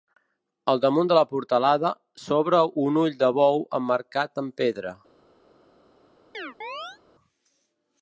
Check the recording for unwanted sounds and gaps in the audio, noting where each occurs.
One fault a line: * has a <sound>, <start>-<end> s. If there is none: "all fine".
* has a chirp, 6.3-7.0 s